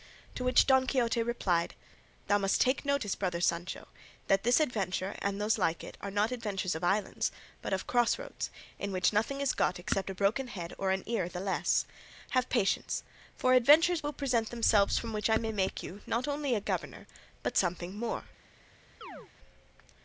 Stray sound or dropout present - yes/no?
yes